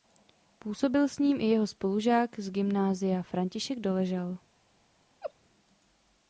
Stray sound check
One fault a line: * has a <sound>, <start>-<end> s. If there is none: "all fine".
* has a laugh, 5.2-5.3 s